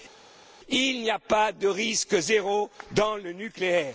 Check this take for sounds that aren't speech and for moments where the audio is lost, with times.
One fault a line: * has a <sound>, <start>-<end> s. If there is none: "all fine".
all fine